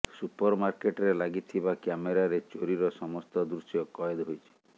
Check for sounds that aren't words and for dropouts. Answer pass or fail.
pass